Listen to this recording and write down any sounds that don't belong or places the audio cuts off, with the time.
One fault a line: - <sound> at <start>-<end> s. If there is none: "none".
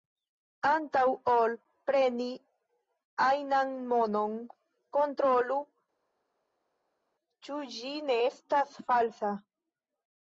none